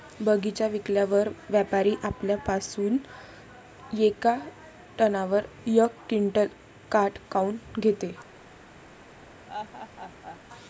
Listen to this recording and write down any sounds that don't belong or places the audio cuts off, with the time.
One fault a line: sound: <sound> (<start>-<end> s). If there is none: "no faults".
sound: laugh (9.5-10.4 s)